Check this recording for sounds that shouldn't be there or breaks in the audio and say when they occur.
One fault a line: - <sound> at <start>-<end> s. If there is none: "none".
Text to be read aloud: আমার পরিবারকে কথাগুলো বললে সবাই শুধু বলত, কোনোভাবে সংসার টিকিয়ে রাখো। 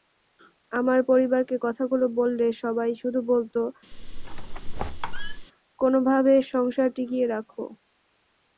- squeak at 3.9-5.5 s